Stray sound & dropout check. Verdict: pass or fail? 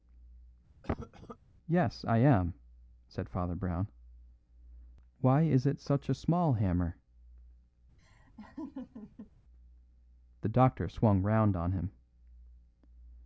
fail